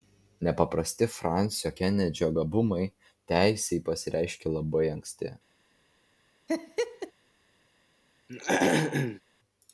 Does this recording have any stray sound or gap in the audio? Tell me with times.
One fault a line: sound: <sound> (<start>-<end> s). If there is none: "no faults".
sound: laugh (6.5-7.1 s)
sound: throat clearing (8.3-9.2 s)